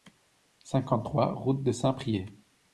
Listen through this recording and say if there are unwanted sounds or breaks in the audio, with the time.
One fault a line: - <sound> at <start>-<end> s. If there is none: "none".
none